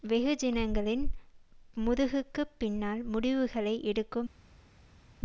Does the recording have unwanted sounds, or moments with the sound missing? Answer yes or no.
no